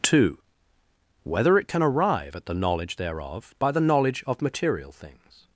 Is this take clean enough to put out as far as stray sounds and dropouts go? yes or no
yes